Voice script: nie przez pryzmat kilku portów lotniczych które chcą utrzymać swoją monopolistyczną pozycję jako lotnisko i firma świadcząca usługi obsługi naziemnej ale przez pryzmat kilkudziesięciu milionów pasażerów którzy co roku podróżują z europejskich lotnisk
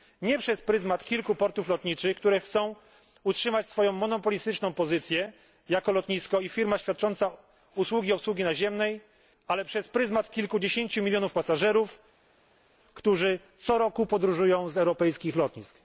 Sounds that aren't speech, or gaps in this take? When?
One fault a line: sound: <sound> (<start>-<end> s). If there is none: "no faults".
no faults